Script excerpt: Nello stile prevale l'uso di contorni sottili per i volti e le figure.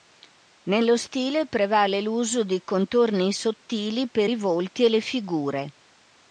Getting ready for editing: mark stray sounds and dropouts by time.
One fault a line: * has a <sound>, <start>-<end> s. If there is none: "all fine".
all fine